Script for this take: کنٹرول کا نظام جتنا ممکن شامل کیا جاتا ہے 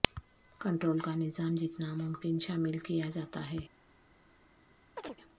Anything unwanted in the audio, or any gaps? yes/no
yes